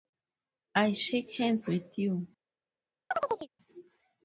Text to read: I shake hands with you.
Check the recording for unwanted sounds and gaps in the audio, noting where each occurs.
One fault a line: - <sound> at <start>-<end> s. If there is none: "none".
- chirp at 3.1-3.5 s